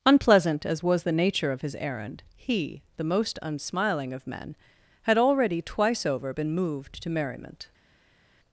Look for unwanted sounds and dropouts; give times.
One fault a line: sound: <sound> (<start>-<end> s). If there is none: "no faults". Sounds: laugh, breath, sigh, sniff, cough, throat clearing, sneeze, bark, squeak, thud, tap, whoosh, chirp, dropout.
no faults